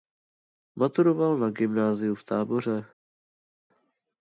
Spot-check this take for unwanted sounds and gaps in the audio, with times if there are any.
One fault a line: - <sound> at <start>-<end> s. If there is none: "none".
none